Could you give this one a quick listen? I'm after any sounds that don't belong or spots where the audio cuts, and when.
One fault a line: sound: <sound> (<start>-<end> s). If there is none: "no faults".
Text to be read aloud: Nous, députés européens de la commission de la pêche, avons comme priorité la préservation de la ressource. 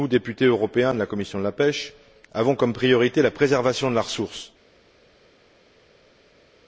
no faults